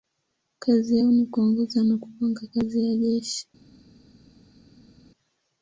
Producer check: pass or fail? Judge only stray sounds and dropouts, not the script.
pass